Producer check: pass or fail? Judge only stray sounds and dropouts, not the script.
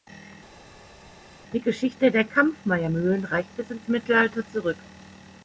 pass